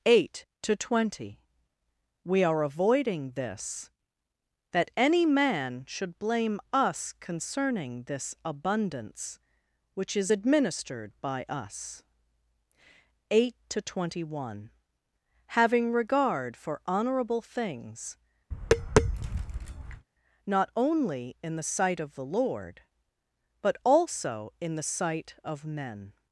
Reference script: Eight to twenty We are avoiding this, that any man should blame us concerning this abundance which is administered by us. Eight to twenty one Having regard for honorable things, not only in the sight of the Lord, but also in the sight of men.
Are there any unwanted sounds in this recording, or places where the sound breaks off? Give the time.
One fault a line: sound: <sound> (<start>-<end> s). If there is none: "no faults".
sound: tap (18.5-20.1 s)